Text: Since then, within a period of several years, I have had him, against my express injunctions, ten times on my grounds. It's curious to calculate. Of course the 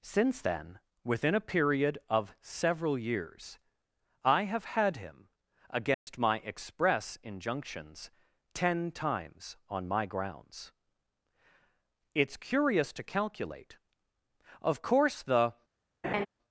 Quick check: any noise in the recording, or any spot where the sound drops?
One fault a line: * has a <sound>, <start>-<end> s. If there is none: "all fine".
* has a dropout, 5.9-6.1 s
* has a laugh, 16.0-16.3 s